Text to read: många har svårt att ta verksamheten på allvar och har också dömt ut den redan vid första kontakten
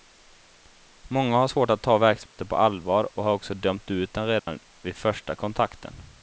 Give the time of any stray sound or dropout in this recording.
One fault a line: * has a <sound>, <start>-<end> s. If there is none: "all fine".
* has a dropout, 2.3-2.4 s
* has a dropout, 4.4-4.5 s